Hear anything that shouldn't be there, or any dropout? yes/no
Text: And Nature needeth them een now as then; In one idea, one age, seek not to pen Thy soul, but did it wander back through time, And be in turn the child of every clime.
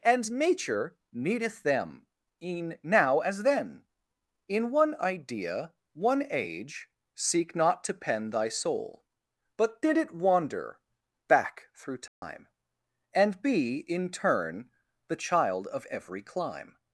yes